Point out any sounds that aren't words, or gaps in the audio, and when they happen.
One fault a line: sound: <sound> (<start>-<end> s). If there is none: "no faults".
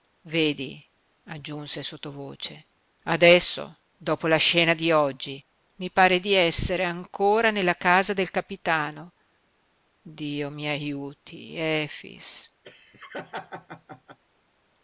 sound: laugh (12.6-14.2 s)